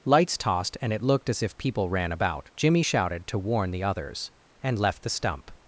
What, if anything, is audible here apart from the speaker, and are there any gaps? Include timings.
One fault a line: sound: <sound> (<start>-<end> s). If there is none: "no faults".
no faults